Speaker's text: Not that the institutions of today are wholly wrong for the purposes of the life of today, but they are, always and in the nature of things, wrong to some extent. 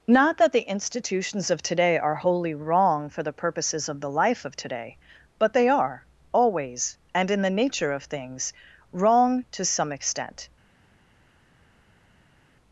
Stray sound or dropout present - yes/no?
no